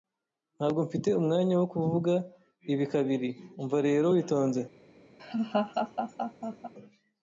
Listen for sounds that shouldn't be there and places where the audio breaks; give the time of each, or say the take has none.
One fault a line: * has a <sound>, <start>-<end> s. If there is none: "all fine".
* has a laugh, 5.2-6.7 s